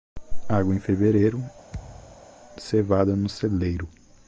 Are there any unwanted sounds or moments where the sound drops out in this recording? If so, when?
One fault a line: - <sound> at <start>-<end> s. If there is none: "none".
- thud at 1.7-2.3 s